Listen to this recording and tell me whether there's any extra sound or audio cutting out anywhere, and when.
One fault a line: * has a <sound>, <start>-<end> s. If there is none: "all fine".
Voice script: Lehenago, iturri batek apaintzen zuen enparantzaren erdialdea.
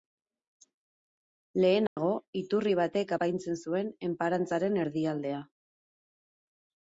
* has a dropout, 1.9-2.0 s